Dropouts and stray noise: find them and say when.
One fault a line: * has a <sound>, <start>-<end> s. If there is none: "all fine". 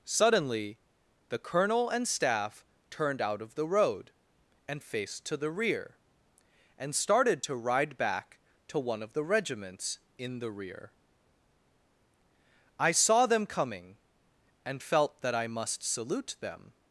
all fine